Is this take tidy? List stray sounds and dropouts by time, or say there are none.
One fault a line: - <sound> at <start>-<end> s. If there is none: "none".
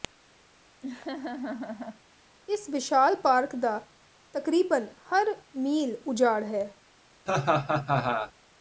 - laugh at 0.8-2.0 s
- laugh at 7.3-8.3 s